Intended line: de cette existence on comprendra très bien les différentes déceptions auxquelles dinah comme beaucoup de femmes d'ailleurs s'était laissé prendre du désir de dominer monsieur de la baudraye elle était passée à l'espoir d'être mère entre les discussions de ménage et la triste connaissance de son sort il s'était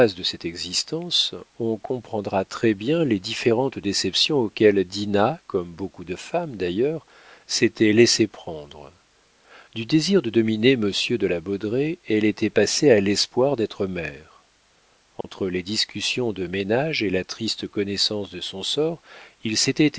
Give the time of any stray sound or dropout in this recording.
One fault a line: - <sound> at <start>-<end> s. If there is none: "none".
- dropout at 15.2-15.2 s